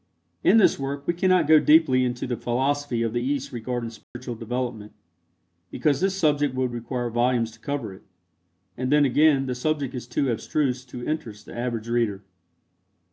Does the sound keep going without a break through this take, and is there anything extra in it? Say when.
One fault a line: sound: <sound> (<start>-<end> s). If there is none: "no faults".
sound: dropout (4.0-4.1 s)